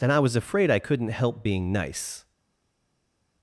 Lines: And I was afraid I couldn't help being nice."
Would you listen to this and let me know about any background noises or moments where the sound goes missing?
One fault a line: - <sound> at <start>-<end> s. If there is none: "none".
none